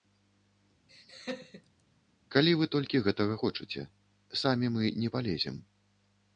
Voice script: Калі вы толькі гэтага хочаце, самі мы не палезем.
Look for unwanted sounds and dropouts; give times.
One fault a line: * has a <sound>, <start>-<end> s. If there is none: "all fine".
* has a laugh, 0.9-1.8 s